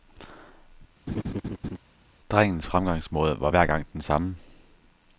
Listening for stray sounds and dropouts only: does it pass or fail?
fail